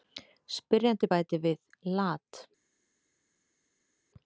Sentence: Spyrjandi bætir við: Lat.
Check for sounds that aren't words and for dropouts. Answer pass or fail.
pass